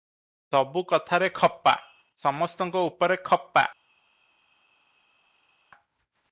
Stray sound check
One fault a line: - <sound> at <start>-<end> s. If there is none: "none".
none